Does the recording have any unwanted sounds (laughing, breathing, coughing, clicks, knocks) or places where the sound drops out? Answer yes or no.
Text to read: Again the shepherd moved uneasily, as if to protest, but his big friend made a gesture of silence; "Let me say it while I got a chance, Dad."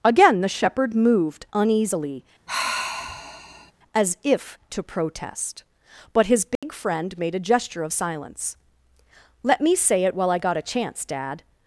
yes